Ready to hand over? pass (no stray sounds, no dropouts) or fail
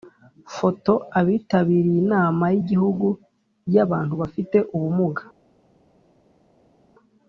pass